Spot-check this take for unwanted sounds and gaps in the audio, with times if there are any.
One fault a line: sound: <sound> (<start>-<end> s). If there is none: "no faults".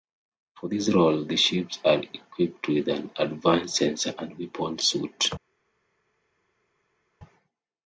no faults